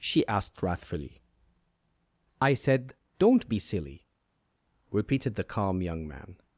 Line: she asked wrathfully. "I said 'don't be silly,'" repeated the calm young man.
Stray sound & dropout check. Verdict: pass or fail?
pass